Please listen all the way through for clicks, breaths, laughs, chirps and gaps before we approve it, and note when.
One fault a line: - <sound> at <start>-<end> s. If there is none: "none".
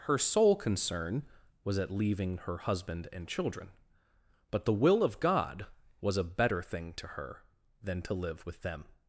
none